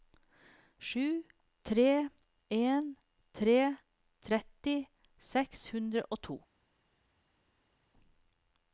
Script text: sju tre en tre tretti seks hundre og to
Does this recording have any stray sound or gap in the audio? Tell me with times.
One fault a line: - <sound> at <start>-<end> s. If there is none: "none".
none